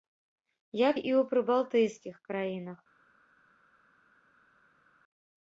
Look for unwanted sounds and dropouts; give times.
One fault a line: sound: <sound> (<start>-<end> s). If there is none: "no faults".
no faults